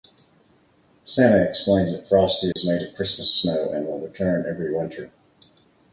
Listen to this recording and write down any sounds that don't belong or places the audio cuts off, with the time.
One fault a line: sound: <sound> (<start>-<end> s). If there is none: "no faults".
sound: dropout (2.5-2.6 s)